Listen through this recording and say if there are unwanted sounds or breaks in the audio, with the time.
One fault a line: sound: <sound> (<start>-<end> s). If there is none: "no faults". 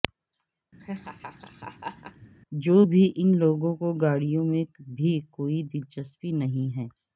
sound: laugh (0.8-2.3 s)